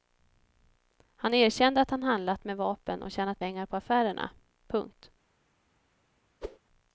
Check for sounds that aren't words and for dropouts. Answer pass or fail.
fail